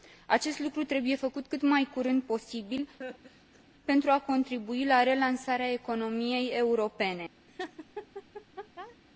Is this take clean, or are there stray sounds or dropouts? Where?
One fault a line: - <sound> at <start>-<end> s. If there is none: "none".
- laugh at 3.0-3.6 s
- laugh at 7.5-9.0 s